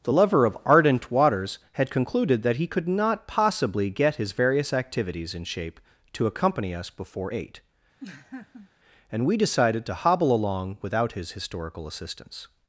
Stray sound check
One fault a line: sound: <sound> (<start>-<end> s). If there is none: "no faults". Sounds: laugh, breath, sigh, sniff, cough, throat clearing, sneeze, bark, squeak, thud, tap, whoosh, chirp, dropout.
sound: laugh (8.0-8.7 s)